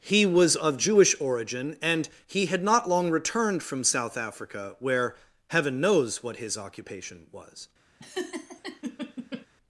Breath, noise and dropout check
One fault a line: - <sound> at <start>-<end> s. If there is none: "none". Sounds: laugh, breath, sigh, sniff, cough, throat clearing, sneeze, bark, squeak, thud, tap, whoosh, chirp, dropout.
- laugh at 8.0-9.5 s